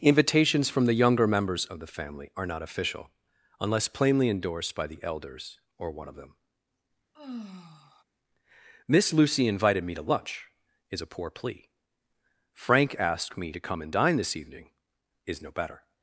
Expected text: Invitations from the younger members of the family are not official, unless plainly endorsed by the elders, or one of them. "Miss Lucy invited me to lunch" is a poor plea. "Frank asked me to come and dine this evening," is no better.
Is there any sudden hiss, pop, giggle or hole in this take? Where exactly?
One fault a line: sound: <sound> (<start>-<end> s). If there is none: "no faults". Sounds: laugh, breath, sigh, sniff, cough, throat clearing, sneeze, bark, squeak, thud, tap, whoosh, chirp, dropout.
sound: sigh (7.1-8.0 s)